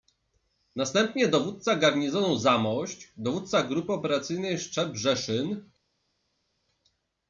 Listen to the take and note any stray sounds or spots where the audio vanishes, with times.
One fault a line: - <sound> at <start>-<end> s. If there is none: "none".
none